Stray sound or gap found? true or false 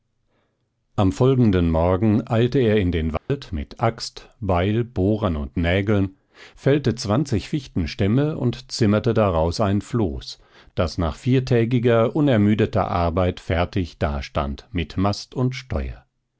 true